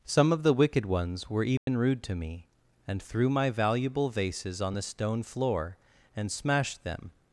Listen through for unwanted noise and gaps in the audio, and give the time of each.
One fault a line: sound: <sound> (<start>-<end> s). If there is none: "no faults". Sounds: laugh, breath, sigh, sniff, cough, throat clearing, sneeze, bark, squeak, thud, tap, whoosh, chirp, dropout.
sound: dropout (1.6-1.7 s)